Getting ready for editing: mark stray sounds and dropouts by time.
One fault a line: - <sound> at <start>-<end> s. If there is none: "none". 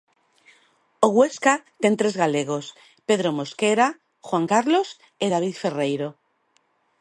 none